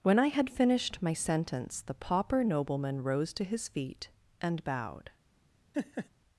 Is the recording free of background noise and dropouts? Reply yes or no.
no